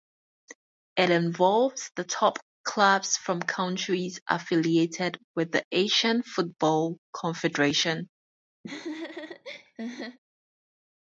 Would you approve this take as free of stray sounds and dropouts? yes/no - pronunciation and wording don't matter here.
no